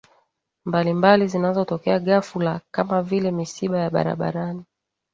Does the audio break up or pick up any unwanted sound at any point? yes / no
no